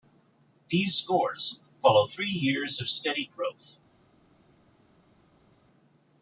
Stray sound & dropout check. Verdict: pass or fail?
pass